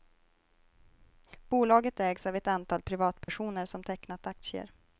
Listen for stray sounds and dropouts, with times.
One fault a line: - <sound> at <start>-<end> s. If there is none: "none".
- dropout at 3.2-3.3 s